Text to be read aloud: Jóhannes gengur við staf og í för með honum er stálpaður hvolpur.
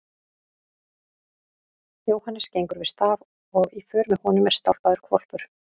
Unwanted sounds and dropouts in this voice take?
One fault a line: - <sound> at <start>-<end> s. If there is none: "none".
none